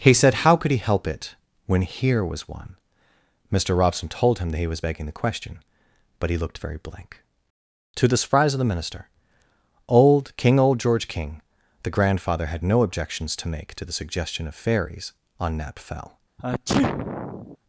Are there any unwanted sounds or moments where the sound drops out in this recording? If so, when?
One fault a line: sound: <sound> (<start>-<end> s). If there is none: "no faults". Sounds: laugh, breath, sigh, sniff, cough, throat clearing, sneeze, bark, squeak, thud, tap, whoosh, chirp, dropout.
sound: sneeze (16.4-17.6 s)